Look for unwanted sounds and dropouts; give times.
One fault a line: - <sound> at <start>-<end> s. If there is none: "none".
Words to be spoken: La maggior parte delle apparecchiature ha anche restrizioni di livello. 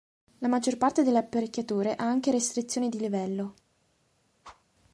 - whoosh at 4.4-4.6 s